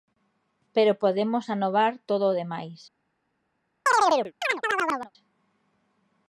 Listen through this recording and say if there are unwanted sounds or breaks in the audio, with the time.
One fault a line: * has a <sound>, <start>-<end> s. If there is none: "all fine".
* has a chirp, 3.9-5.1 s